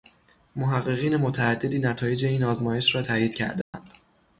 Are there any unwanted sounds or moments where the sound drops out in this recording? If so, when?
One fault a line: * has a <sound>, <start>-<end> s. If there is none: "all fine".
* has a dropout, 3.6-3.7 s